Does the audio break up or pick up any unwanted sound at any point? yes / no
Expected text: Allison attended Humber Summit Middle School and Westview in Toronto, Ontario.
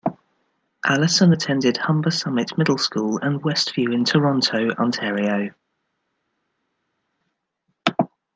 no